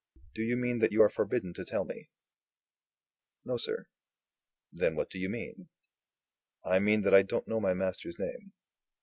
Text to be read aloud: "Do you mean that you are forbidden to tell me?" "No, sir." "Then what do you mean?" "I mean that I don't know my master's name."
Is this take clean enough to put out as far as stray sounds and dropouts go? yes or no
yes